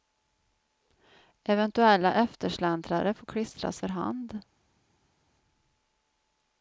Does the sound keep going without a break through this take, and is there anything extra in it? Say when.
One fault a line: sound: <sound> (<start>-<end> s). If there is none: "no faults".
no faults